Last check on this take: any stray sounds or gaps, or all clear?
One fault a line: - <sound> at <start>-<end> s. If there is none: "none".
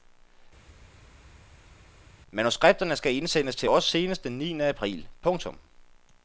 none